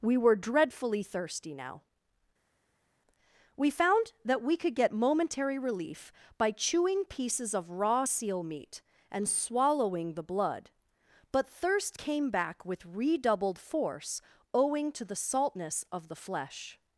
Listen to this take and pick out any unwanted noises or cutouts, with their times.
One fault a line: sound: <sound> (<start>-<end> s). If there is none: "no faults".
no faults